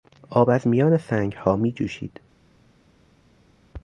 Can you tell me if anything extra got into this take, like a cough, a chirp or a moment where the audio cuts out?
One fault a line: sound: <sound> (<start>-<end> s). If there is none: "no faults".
no faults